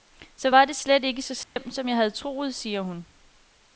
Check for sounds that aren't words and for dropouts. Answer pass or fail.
fail